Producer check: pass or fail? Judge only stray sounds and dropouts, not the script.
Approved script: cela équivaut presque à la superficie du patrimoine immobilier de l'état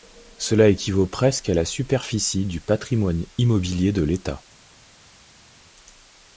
pass